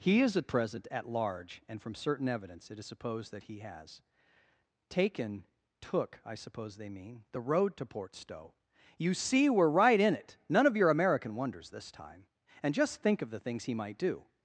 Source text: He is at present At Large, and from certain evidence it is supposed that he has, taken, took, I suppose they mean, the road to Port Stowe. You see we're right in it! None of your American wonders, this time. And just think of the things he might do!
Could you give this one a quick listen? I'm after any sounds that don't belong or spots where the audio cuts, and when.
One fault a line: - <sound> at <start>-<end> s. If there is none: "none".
none